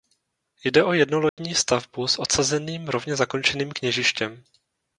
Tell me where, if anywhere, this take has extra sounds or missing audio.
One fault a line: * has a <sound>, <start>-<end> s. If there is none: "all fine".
* has a dropout, 1.3-1.4 s